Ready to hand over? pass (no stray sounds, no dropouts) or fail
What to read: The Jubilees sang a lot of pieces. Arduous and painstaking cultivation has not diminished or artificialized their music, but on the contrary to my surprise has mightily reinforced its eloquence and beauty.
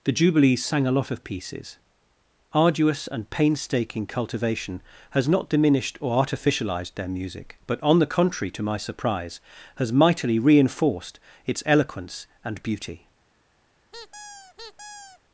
fail